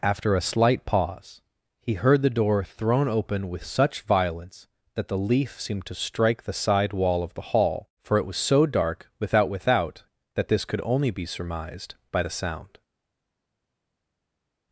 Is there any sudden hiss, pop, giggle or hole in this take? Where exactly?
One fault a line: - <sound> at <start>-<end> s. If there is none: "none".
none